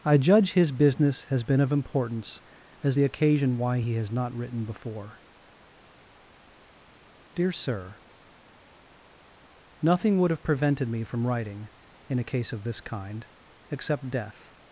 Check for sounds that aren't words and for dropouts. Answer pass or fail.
pass